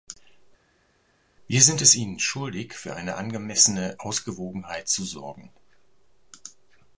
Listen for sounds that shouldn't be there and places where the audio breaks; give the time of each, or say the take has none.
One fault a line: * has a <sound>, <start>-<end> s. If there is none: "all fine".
all fine